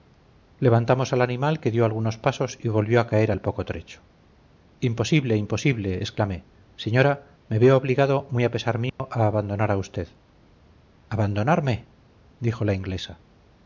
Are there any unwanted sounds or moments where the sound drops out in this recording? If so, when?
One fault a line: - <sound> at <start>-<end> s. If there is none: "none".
- dropout at 8.9-9.0 s